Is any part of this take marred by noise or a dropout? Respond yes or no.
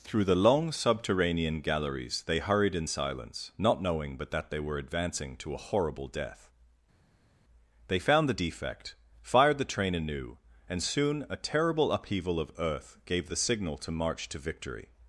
no